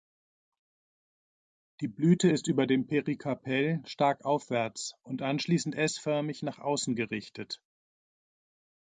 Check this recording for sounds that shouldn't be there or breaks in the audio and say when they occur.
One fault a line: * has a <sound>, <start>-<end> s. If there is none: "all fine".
all fine